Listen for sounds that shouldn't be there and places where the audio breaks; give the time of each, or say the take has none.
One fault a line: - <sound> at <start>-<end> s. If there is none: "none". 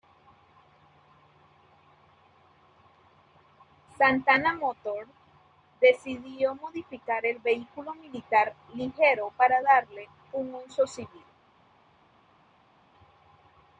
none